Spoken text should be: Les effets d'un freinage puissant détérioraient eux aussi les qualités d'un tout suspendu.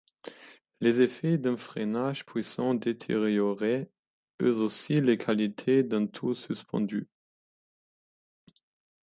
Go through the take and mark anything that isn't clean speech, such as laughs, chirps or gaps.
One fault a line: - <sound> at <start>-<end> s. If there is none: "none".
none